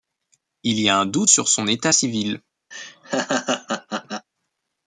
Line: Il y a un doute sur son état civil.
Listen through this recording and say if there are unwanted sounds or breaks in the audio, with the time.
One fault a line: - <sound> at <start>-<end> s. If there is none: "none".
- laugh at 2.7-4.3 s